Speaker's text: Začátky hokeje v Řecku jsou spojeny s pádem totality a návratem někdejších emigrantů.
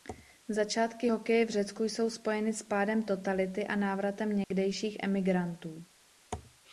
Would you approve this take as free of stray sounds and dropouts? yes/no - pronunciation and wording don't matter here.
no